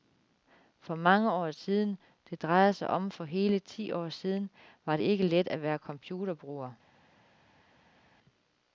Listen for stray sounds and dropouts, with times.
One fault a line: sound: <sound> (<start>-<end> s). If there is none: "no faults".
no faults